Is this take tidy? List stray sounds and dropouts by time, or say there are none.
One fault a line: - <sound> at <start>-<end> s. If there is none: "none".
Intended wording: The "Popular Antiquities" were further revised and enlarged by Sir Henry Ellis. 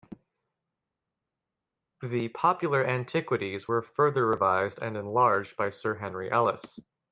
none